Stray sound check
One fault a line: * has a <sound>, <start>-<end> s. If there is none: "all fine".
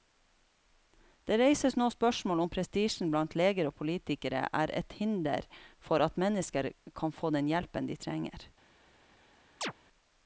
* has a chirp, 9.6-9.7 s